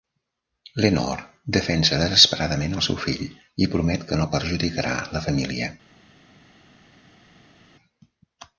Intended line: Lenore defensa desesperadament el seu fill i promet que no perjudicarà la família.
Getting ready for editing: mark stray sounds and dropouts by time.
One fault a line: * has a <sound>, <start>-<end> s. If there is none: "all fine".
all fine